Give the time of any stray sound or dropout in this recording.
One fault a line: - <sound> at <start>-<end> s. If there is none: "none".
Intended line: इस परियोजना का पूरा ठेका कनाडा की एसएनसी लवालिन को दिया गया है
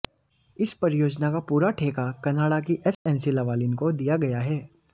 - dropout at 2.9-3.1 s